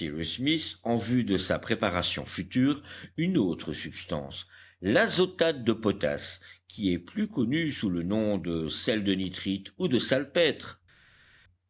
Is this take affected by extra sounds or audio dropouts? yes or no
no